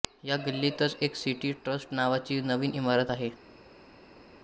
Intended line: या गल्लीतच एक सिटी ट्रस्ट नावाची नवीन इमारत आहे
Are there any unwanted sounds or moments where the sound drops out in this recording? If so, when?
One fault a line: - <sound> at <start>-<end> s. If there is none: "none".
none